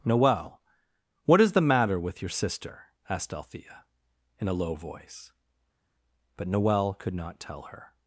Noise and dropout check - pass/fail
pass